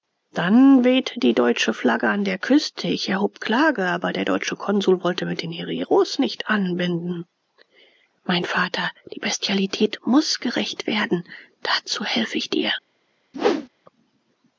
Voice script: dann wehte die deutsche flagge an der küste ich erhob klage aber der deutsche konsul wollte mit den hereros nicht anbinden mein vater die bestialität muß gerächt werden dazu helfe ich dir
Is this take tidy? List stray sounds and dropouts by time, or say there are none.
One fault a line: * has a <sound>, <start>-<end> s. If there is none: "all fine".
* has a whoosh, 13.3-13.7 s